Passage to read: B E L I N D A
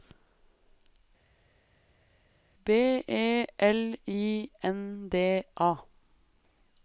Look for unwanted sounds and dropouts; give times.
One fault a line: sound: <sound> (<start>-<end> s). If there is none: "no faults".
no faults